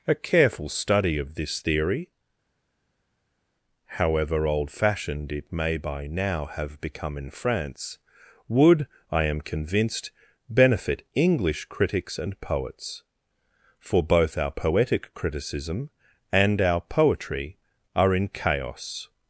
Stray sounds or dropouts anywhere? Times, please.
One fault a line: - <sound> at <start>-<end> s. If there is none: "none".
none